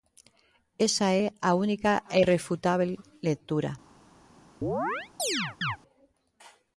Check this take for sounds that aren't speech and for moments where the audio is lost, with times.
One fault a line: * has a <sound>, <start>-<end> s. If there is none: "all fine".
* has a chirp, 4.6-5.8 s